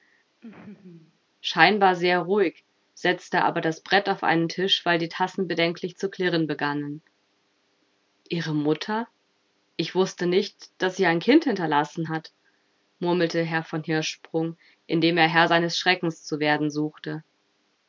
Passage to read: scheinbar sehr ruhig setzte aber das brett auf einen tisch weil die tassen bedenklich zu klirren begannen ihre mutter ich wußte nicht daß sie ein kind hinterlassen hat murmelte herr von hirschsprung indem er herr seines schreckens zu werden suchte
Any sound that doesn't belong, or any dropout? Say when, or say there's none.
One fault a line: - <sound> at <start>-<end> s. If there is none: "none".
- laugh at 0.4-1.2 s